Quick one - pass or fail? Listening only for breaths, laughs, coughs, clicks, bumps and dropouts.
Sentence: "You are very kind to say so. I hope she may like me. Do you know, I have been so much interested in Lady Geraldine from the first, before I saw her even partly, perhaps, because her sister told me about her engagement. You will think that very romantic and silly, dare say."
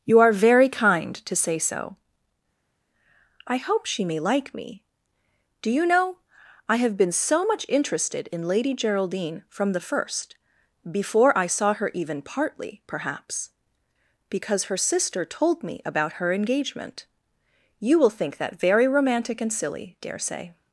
pass